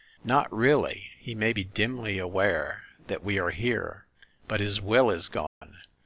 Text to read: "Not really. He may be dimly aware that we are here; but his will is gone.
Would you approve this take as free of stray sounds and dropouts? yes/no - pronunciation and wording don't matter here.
no